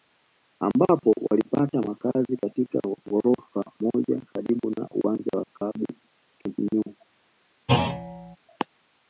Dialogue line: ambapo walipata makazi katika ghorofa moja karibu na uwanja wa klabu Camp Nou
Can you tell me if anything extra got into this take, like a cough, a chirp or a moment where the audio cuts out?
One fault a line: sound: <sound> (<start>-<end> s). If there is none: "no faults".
sound: thud (7.7-8.4 s)